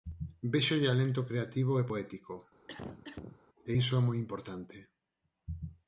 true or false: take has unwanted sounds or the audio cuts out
true